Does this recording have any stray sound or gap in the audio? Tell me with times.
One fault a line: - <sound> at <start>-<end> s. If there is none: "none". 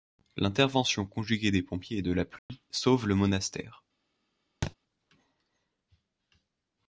- dropout at 2.4-2.5 s
- thud at 4.6-4.8 s